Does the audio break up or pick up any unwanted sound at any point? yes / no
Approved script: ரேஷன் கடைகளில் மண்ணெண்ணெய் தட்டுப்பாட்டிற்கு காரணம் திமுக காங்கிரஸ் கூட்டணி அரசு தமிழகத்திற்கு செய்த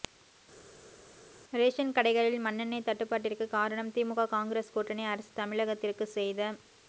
no